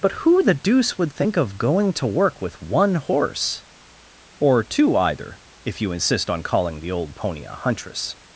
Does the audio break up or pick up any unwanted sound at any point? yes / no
no